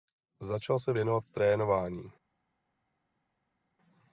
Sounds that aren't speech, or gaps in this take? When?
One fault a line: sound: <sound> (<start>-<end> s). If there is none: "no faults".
no faults